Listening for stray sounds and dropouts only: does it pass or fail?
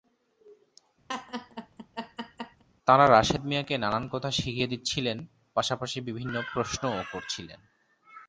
fail